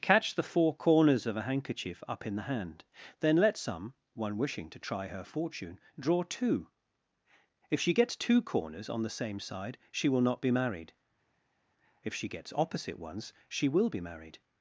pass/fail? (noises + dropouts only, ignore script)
pass